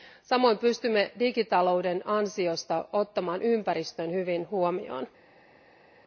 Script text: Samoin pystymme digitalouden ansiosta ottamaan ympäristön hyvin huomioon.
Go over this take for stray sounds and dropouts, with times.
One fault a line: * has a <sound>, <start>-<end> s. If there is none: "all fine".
all fine